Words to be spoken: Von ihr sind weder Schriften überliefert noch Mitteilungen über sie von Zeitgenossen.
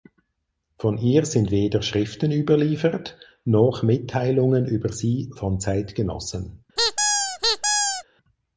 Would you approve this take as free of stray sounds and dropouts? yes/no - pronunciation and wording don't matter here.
no